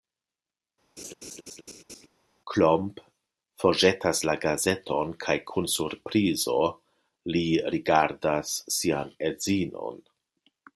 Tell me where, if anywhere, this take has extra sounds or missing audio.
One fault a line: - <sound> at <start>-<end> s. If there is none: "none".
- laugh at 1.0-2.1 s